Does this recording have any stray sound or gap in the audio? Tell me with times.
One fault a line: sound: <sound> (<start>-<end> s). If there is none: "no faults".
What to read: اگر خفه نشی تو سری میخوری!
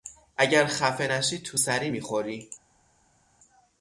no faults